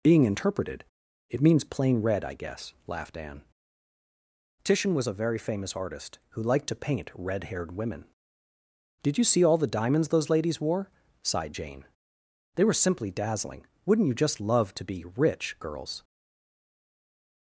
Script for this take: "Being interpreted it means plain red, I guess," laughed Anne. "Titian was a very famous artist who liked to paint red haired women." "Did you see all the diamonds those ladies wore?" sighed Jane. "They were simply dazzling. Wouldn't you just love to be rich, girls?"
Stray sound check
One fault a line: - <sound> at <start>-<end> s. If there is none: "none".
none